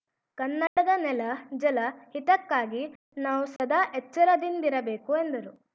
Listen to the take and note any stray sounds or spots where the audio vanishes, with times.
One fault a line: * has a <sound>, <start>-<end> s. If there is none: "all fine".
* has a dropout, 0.7-0.8 s
* has a dropout, 3.6-3.6 s